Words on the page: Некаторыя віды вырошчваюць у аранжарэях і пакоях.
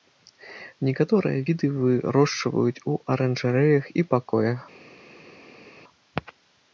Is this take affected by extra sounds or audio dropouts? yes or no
no